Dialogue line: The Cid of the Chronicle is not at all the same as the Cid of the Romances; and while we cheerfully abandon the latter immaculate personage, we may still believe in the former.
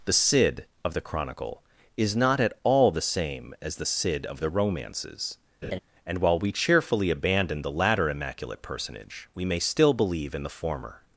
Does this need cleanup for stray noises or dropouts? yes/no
yes